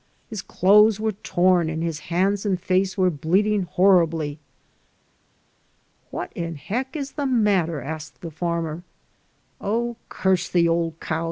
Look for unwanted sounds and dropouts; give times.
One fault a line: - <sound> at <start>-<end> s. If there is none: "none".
none